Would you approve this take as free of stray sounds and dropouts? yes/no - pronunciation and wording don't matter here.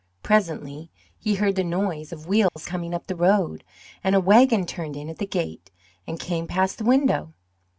no